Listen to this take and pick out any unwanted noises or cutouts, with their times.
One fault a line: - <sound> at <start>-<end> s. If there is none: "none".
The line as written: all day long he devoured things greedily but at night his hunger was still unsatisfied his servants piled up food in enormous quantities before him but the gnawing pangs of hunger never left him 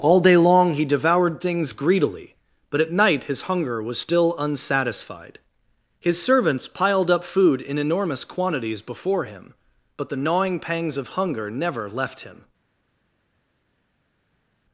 none